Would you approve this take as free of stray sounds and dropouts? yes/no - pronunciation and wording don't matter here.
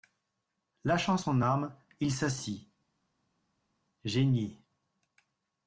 yes